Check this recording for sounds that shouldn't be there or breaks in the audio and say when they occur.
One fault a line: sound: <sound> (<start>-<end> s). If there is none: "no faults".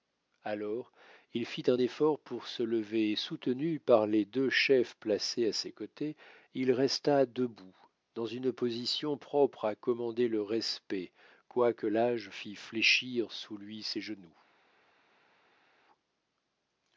no faults